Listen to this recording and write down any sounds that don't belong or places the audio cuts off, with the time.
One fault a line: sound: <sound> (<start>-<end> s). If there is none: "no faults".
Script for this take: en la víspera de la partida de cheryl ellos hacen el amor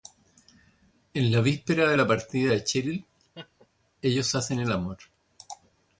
sound: laugh (3.3-3.7 s)